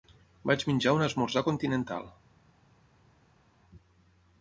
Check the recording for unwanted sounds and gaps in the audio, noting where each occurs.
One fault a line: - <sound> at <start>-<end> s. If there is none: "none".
none